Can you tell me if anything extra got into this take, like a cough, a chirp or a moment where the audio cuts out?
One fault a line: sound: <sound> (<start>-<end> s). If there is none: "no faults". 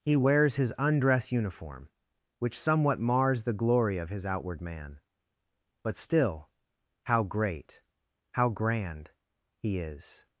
no faults